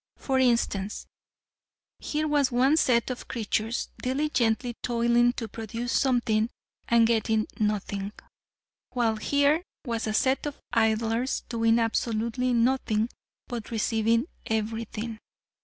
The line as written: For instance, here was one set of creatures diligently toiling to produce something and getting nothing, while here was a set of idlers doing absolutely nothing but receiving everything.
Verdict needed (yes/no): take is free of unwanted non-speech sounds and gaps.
yes